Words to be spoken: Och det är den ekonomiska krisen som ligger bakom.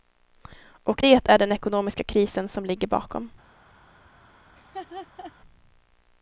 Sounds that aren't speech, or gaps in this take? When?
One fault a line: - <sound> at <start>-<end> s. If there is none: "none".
- laugh at 4.6-5.3 s